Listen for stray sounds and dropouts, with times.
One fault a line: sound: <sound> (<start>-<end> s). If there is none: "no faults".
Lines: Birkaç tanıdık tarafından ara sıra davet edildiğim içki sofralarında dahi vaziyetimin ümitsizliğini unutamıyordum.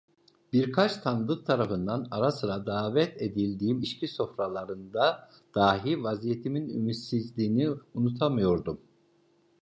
no faults